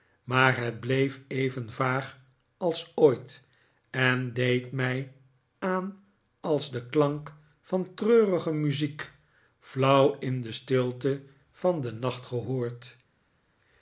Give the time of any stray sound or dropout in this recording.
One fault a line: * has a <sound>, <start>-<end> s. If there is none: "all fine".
all fine